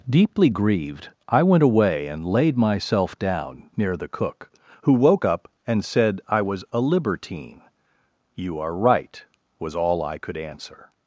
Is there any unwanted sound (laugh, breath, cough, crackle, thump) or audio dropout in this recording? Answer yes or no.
no